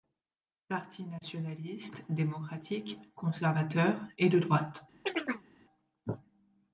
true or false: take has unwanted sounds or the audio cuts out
true